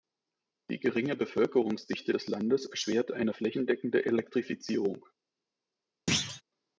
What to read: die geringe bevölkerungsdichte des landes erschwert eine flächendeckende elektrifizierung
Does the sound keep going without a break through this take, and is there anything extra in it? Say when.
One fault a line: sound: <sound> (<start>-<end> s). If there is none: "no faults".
sound: thud (6.1-6.4 s)